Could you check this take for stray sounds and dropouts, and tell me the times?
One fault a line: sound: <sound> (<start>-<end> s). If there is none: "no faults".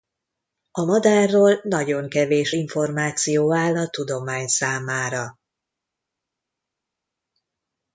no faults